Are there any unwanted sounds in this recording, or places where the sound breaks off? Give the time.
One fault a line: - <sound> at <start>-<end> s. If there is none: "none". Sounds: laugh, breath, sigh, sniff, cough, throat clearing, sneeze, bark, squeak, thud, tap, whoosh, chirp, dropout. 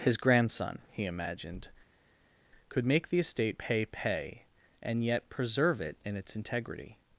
none